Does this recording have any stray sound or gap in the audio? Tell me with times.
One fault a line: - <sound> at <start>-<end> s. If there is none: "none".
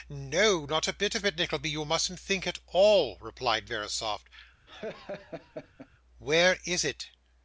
- laugh at 4.7-5.9 s